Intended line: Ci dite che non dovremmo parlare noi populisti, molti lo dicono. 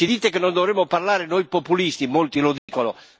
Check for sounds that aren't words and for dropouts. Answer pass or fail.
fail